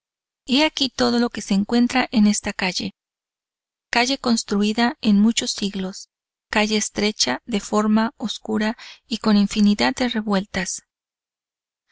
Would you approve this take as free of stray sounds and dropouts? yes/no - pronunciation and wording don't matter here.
yes